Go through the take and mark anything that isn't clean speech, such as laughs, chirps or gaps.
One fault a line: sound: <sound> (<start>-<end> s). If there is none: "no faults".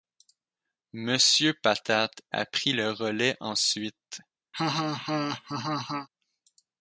sound: laugh (4.5-6.1 s)